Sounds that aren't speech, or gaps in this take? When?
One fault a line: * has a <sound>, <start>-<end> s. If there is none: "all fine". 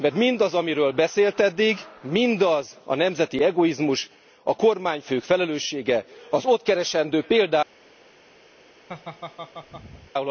* has a laugh, 8.9-10.1 s